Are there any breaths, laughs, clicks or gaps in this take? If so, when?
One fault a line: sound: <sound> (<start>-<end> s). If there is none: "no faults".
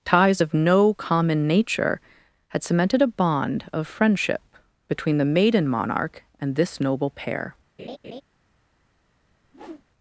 sound: laugh (7.8-8.2 s)
sound: whoosh (9.4-9.9 s)